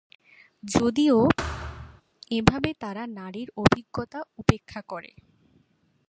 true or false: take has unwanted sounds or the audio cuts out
true